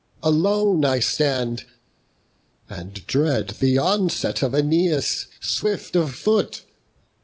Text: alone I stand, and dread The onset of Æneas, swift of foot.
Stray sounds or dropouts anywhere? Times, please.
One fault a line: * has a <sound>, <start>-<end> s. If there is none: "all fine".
all fine